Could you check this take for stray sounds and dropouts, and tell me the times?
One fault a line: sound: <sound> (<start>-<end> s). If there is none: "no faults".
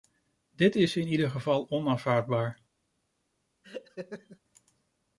sound: laugh (3.6-4.4 s)